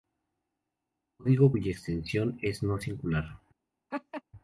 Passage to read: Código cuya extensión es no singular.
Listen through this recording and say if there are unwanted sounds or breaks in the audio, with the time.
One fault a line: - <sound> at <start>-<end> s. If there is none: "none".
- laugh at 3.9-4.2 s